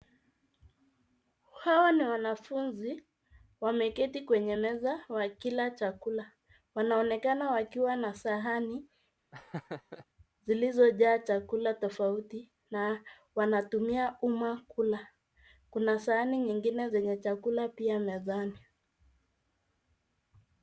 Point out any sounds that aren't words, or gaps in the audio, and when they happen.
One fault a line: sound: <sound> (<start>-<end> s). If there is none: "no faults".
sound: laugh (9.3-10.1 s)